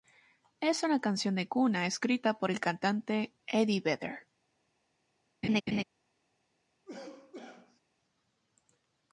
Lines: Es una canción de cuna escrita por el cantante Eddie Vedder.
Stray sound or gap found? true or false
true